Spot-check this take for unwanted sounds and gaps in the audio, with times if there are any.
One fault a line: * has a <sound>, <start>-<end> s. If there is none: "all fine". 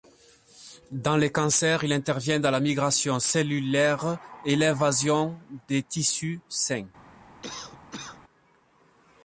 * has a cough, 7.4-8.2 s